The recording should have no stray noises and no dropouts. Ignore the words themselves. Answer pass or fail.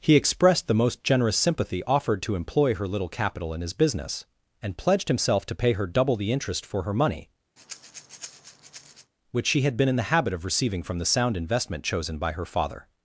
fail